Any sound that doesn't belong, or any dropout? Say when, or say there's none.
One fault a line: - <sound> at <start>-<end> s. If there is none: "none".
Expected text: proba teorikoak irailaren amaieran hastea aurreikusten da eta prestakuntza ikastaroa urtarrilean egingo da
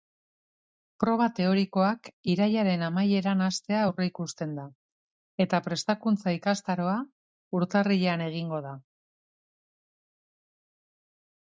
none